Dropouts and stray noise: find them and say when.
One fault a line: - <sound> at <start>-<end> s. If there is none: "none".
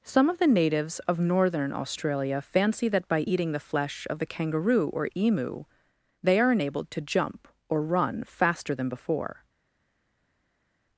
none